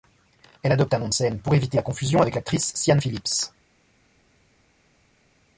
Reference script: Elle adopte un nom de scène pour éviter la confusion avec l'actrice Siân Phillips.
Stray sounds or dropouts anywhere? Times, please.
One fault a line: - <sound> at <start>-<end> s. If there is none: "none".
none